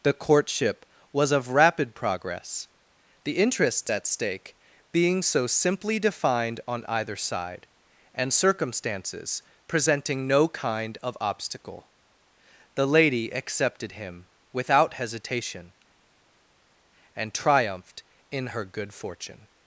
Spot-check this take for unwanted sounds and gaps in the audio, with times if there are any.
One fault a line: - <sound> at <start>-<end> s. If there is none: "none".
none